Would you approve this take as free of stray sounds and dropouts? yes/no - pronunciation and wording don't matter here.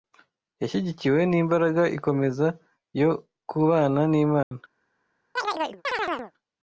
no